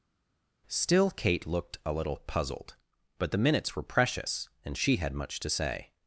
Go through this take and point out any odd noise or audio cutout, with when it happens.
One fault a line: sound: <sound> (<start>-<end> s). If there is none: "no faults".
no faults